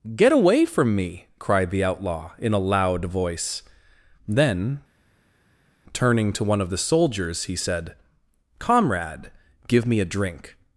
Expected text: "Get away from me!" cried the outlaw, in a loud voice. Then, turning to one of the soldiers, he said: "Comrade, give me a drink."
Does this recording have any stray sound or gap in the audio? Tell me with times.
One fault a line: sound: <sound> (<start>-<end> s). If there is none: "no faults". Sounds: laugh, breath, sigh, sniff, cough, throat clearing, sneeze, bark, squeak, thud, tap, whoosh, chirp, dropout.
no faults